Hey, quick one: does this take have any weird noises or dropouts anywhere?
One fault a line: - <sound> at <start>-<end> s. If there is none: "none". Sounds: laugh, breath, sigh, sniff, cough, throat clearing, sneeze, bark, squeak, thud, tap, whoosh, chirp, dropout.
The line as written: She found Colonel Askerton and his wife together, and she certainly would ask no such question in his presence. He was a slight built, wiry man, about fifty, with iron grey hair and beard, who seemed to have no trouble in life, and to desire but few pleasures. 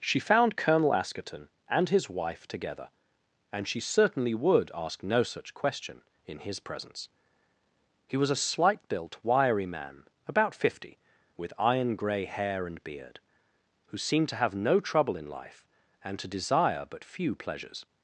none